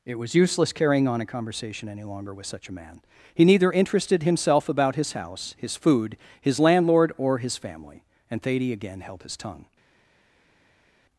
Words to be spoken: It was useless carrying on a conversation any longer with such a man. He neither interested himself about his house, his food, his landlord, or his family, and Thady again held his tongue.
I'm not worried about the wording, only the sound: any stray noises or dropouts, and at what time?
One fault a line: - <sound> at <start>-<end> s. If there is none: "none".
none